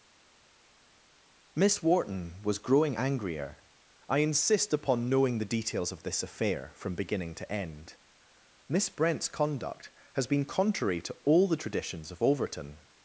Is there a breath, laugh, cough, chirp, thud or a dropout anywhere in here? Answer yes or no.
no